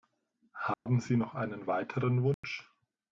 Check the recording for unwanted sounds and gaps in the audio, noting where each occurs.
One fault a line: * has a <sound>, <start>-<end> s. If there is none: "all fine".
* has a dropout, 0.7-0.9 s
* has a dropout, 2.3-2.4 s